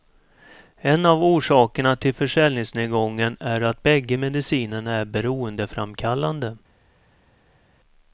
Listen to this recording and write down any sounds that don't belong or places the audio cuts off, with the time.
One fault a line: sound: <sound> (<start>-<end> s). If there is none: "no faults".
no faults